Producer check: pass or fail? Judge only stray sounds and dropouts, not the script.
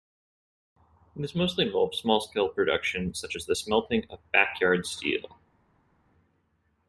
pass